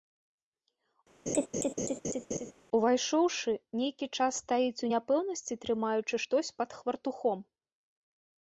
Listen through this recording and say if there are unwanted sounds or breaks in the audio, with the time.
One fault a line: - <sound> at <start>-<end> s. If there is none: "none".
- laugh at 1.3-2.5 s